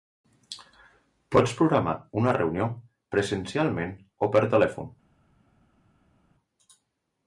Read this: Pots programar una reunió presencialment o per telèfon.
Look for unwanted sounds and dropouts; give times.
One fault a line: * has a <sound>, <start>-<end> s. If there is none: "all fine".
all fine